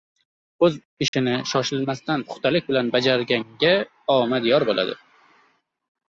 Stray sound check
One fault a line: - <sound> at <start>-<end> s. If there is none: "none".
- dropout at 1.1-1.1 s